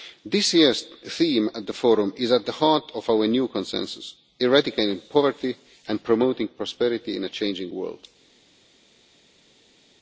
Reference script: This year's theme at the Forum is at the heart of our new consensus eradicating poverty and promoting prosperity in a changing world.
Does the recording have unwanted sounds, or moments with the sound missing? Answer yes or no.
no